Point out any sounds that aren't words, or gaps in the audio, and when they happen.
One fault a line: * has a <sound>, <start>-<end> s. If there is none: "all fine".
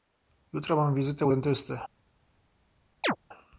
* has a chirp, 3.0-3.2 s